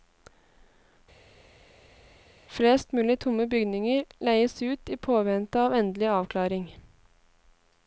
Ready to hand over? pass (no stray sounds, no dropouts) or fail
pass